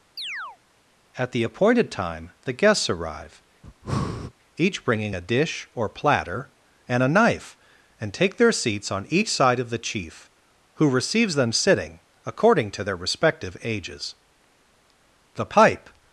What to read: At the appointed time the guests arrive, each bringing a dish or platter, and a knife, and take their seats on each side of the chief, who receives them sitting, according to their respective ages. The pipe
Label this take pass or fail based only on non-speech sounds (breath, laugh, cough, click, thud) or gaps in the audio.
fail